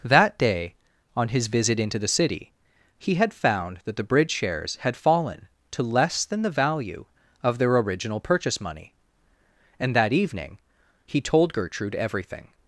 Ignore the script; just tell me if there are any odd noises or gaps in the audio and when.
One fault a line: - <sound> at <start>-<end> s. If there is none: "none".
none